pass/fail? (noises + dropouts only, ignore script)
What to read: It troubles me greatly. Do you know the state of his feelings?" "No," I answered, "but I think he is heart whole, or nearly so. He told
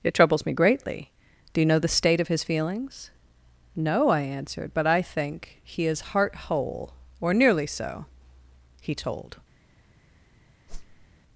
fail